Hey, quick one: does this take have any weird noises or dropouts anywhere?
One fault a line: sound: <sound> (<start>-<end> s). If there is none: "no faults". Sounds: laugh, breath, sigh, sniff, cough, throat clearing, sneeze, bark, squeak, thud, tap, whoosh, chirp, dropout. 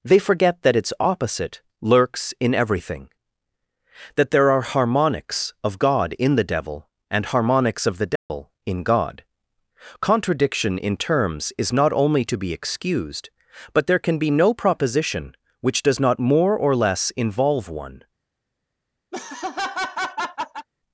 sound: dropout (8.2-8.3 s)
sound: laugh (19.1-20.7 s)